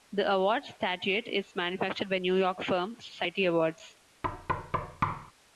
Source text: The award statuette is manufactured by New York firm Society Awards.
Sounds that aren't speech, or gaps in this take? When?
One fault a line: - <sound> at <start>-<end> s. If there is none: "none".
- thud at 4.2-5.3 s